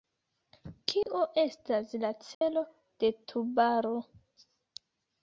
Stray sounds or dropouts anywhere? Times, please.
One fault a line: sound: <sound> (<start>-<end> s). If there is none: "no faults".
sound: dropout (1.0-1.1 s)
sound: dropout (2.3-2.4 s)